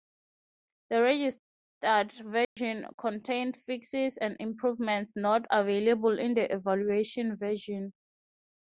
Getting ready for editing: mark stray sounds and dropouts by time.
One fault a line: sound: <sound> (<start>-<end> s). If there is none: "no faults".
sound: dropout (2.4-2.6 s)